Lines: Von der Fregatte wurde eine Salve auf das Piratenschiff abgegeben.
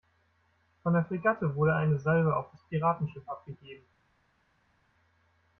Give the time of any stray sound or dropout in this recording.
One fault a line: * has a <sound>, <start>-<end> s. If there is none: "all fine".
all fine